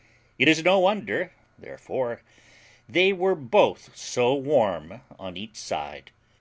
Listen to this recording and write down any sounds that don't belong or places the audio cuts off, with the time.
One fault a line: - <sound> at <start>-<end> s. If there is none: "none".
none